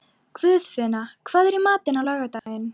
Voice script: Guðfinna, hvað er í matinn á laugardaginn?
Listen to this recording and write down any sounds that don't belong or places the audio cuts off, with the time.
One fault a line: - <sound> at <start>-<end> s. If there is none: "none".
- dropout at 2.4-2.5 s